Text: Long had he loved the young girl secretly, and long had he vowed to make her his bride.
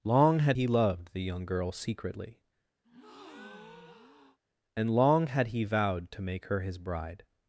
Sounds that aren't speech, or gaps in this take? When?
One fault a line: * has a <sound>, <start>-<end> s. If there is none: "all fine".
* has a breath, 2.8-4.4 s